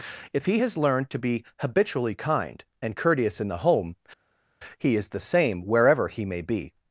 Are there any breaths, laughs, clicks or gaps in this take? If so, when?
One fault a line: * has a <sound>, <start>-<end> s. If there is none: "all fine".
all fine